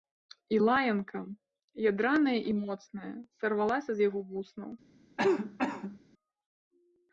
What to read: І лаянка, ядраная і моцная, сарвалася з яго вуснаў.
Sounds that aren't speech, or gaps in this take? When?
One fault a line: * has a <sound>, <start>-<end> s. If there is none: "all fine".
* has a cough, 5.2-6.0 s